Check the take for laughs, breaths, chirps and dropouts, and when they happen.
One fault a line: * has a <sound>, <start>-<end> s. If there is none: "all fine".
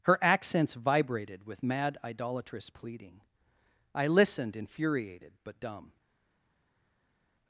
all fine